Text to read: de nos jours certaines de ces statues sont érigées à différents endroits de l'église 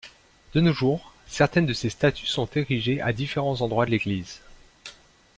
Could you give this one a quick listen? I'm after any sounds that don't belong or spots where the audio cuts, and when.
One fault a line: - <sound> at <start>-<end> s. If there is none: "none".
none